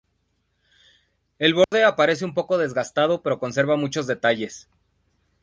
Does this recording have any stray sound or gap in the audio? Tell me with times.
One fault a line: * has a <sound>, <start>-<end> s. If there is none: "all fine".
* has a dropout, 1.6-1.7 s